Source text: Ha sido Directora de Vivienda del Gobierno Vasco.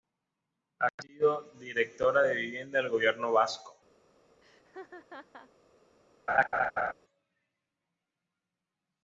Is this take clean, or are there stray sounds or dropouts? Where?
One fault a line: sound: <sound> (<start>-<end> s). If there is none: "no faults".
sound: laugh (4.4-5.5 s)
sound: laugh (6.3-6.9 s)